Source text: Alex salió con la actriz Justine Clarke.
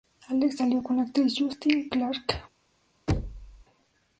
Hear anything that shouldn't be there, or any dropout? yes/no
yes